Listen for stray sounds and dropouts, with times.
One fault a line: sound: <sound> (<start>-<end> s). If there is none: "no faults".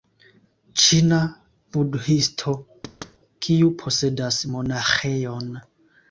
sound: thud (2.8-3.2 s)